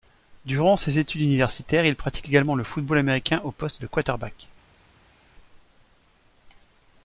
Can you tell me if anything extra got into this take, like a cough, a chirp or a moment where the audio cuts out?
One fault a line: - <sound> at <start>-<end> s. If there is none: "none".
none